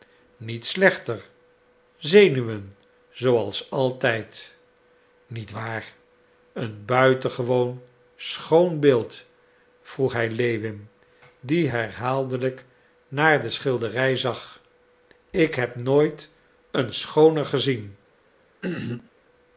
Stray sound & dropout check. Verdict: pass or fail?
fail